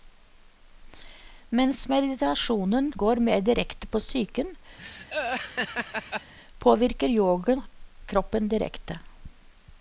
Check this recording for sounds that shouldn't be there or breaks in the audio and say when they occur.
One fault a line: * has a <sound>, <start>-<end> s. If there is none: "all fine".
* has a laugh, 4.8-6.3 s